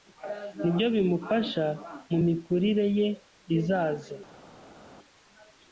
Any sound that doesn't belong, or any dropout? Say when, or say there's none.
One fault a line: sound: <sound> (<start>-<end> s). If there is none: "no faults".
no faults